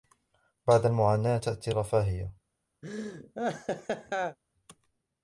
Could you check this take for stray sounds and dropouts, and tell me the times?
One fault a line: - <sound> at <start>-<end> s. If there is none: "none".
- laugh at 2.8-4.4 s